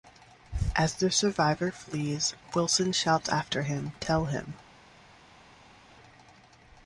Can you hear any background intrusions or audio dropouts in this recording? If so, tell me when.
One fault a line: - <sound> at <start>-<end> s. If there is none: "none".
none